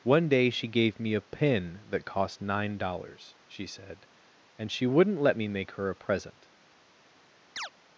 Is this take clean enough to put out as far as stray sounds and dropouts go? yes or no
no